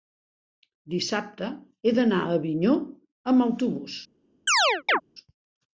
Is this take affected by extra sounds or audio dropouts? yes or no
yes